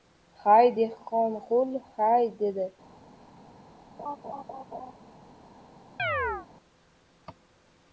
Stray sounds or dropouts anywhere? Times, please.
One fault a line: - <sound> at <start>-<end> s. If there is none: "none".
- laugh at 4.0-4.9 s
- chirp at 6.0-6.5 s